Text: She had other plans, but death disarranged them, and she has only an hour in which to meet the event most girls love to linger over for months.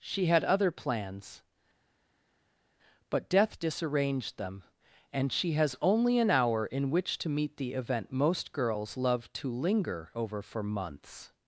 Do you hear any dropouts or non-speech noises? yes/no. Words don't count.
no